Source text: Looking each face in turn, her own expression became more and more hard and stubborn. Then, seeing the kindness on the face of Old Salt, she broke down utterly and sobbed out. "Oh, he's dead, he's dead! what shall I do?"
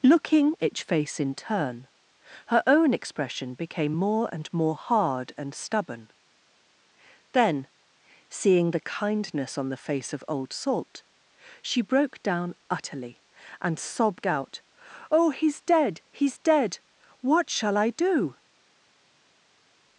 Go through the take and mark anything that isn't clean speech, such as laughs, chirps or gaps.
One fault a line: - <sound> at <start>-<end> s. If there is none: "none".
none